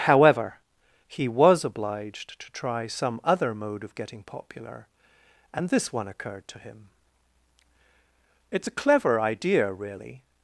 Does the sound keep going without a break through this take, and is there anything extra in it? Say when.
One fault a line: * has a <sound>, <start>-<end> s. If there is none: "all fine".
all fine